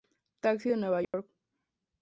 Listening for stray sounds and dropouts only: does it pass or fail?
fail